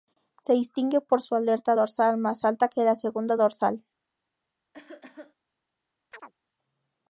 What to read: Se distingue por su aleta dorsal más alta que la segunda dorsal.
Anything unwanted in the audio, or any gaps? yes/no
yes